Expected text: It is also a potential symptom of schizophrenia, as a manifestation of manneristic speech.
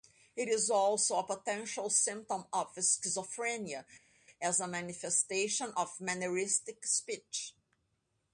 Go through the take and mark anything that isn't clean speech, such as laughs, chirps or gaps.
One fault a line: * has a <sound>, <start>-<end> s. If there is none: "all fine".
all fine